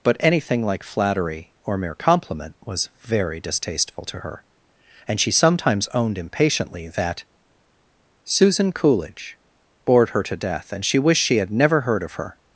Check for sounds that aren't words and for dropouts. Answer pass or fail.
pass